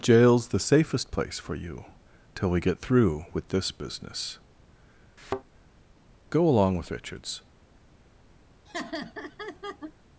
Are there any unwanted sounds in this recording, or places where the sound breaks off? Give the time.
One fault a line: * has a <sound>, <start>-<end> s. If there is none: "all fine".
* has a thud, 5.2-5.4 s
* has a laugh, 8.7-9.9 s